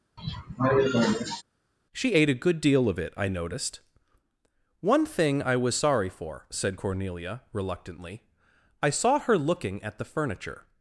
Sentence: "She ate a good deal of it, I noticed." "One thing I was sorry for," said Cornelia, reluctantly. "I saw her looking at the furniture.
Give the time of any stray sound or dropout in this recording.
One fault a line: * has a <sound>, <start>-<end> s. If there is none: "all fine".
* has a cough, 0.2-1.4 s